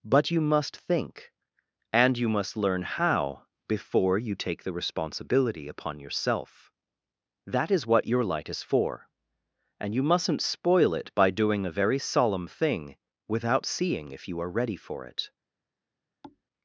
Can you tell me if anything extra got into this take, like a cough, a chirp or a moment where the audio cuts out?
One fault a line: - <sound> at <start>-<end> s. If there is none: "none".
- thud at 16.2-16.4 s